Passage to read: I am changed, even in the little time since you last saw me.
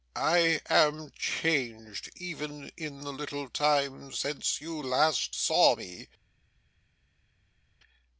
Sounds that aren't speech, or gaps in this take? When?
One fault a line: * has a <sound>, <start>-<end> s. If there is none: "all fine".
all fine